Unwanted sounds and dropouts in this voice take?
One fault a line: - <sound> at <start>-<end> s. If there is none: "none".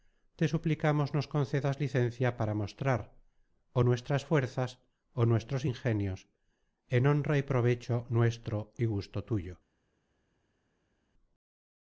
none